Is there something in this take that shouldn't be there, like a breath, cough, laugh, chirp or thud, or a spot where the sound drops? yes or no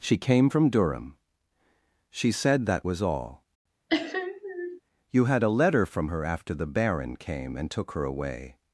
yes